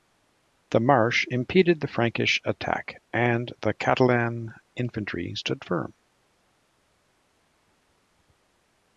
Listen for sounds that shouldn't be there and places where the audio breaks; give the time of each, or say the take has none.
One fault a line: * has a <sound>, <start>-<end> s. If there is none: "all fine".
all fine